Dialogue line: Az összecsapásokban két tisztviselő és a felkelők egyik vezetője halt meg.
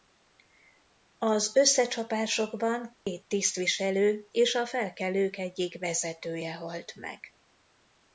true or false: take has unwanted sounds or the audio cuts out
true